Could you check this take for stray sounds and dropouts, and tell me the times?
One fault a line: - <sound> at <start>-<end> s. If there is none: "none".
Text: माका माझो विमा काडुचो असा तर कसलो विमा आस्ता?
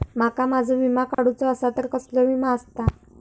- dropout at 1.1-1.2 s